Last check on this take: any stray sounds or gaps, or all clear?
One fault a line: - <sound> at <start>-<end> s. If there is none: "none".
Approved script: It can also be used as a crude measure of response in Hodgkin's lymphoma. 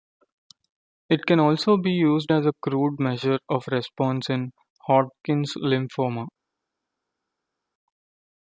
none